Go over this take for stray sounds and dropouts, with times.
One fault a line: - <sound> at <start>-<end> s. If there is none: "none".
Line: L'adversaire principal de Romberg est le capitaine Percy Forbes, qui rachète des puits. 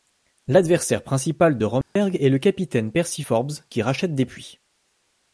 - dropout at 1.8-2.0 s